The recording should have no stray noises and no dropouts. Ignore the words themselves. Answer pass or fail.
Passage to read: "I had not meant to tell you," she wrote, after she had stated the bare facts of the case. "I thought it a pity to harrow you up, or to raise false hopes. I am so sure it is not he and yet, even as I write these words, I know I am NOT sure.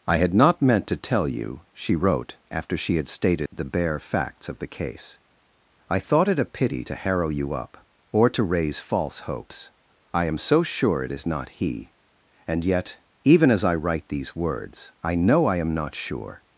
fail